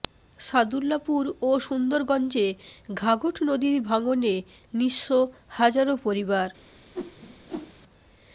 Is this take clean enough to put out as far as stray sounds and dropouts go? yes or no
no